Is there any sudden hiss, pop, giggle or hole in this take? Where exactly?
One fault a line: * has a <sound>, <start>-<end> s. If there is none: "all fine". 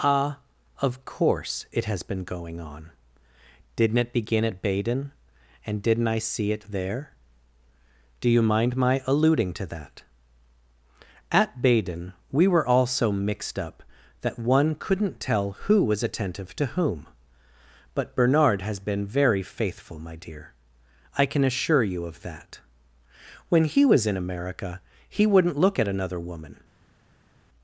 all fine